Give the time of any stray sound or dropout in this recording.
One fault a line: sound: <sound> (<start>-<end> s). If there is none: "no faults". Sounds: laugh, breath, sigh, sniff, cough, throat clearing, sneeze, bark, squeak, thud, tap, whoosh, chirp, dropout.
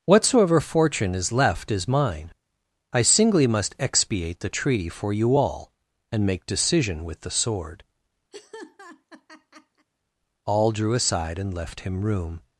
sound: laugh (8.3-9.9 s)